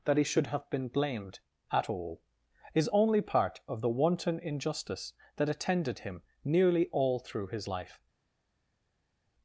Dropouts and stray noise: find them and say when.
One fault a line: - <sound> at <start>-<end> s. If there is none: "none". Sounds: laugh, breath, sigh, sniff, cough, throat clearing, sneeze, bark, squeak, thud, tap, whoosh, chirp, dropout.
none